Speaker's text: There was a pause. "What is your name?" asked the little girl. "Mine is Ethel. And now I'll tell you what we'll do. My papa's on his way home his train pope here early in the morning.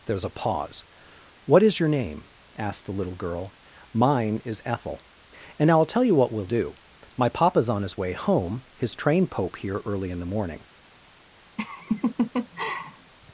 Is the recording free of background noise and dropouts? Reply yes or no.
no